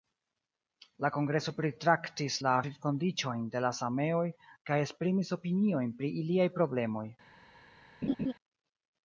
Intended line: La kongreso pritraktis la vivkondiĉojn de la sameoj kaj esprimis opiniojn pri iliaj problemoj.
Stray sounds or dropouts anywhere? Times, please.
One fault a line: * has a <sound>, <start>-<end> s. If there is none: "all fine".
* has a laugh, 8.0-8.3 s